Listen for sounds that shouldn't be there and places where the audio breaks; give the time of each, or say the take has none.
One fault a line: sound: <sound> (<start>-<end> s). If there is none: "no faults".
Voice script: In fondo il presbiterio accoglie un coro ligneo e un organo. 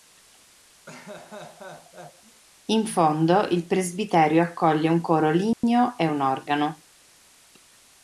sound: laugh (0.9-2.4 s)
sound: dropout (5.5-5.6 s)